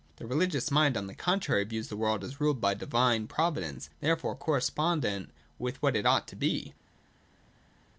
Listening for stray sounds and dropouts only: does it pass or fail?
pass